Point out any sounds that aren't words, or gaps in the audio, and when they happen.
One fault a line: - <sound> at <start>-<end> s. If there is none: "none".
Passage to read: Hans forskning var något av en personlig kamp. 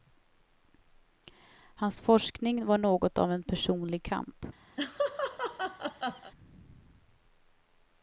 - laugh at 4.8-6.3 s